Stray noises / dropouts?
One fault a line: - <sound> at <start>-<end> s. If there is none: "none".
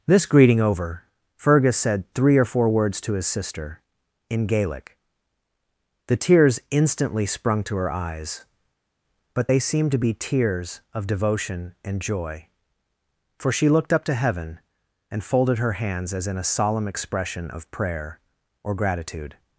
none